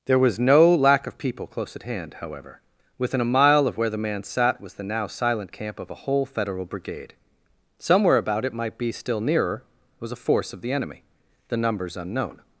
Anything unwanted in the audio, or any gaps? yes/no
no